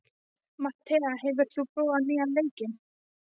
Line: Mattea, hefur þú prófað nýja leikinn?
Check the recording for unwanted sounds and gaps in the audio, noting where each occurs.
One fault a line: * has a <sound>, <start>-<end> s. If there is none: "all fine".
all fine